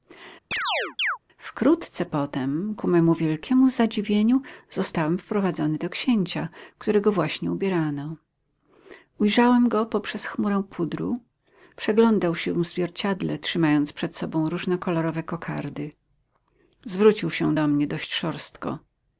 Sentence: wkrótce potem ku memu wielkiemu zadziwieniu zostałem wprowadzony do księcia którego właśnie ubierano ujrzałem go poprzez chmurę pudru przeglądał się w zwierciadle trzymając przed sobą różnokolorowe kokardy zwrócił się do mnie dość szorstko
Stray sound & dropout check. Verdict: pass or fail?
fail